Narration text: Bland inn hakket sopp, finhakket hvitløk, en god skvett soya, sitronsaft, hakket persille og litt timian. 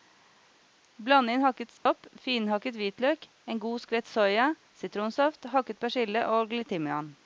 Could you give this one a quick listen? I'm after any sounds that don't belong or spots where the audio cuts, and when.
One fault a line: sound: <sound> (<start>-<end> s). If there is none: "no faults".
sound: dropout (1.8-1.9 s)